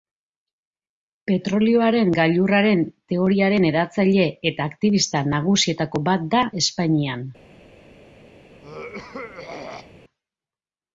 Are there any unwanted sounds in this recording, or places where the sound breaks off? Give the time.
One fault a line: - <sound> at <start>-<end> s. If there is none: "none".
- throat clearing at 8.6-9.9 s